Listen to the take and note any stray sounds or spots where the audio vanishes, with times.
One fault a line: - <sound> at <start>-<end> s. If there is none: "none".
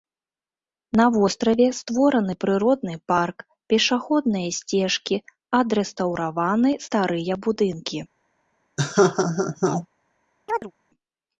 - laugh at 8.8-9.9 s
- chirp at 10.5-10.7 s